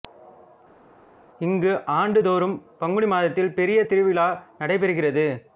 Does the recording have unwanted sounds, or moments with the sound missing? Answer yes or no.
no